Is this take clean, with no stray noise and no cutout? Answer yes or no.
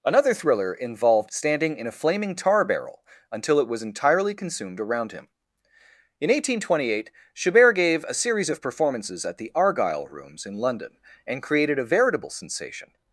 yes